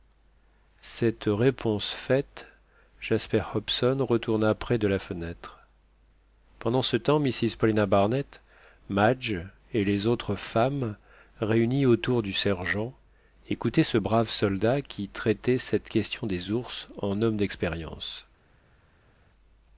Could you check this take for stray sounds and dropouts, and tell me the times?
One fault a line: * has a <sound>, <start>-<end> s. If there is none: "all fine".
all fine